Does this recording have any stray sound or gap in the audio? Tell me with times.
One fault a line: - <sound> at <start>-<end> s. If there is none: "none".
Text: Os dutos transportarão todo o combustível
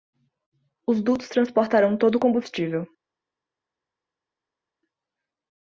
none